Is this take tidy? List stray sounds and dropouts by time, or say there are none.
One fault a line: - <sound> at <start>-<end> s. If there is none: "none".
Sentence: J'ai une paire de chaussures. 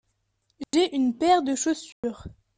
- dropout at 0.6-0.7 s
- dropout at 1.9-2.0 s